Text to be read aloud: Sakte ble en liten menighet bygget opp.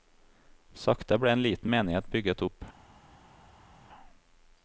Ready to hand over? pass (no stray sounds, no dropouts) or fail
pass